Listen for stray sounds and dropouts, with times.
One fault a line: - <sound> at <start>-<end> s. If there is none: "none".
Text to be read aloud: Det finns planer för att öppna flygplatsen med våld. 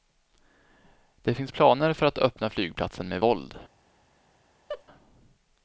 - laugh at 4.7-4.8 s